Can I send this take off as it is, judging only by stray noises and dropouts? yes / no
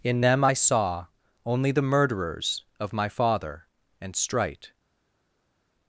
yes